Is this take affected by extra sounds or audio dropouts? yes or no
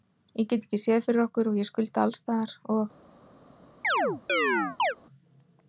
yes